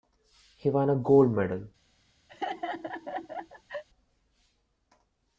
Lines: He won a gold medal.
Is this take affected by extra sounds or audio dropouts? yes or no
yes